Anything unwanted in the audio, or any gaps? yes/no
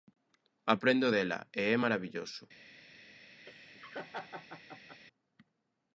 yes